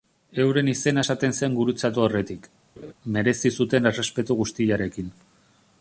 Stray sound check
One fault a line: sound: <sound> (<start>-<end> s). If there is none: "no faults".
sound: laugh (2.8-2.9 s)